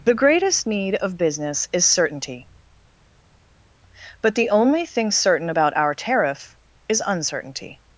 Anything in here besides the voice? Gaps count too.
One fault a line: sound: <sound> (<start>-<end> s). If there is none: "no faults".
no faults